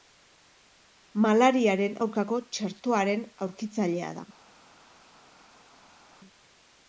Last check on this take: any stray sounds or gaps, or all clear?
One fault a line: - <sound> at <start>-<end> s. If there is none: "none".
none